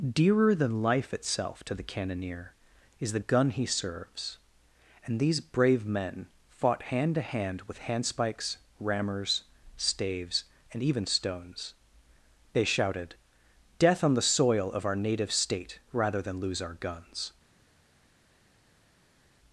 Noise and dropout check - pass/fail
pass